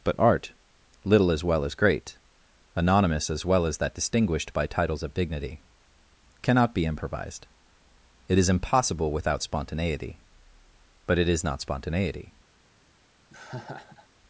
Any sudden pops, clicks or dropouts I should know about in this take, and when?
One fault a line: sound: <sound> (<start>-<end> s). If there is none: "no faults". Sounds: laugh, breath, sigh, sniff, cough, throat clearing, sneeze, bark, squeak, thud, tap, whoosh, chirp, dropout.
sound: laugh (13.3-14.1 s)